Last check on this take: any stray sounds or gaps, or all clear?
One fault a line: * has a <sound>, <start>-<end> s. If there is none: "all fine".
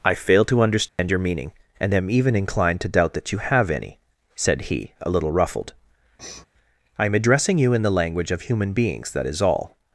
* has a dropout, 0.9-1.0 s
* has a sniff, 6.2-6.5 s